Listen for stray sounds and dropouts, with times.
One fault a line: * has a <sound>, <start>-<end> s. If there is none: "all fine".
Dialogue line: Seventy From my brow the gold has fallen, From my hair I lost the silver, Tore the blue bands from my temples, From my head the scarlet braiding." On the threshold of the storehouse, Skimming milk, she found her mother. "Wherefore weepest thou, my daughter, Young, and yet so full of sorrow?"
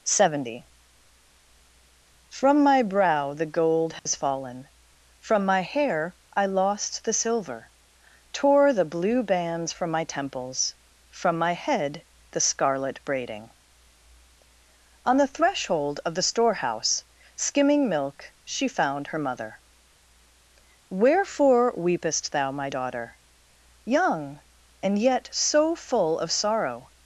* has a dropout, 4.0-4.1 s